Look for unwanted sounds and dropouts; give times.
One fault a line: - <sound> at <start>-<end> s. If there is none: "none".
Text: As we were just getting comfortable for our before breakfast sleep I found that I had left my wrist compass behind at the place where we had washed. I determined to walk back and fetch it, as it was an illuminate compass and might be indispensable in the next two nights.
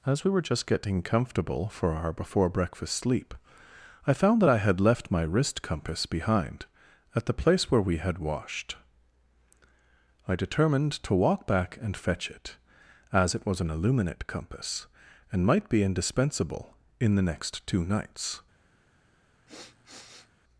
- sniff at 19.5-20.3 s